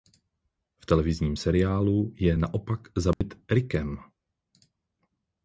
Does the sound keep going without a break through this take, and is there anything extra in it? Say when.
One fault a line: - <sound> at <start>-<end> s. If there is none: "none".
- dropout at 3.1-3.2 s